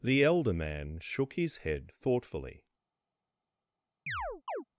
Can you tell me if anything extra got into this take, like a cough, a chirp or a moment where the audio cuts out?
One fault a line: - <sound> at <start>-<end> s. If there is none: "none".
- chirp at 4.1-4.6 s